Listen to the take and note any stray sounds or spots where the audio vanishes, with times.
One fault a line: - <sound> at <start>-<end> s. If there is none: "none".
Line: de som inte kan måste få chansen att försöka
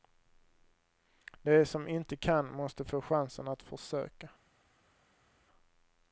none